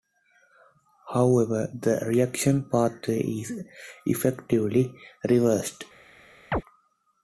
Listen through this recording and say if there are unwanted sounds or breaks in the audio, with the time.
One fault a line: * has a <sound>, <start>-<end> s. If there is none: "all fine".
* has a chirp, 6.5-6.6 s